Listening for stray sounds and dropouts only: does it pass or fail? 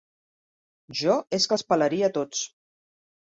pass